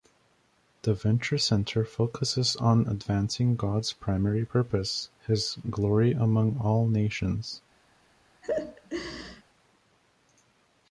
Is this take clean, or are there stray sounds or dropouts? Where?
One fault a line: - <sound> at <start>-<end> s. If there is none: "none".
- laugh at 8.4-9.4 s